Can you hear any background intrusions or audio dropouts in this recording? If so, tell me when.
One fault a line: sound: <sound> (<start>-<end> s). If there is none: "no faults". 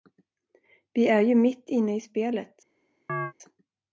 sound: chirp (3.1-3.3 s)